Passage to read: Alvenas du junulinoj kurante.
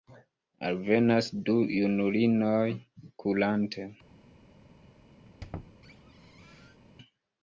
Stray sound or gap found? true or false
true